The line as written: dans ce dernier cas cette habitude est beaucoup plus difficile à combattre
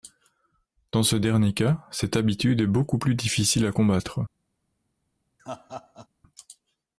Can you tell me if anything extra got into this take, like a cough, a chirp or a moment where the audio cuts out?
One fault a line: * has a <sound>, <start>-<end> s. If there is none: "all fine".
* has a laugh, 5.4-6.1 s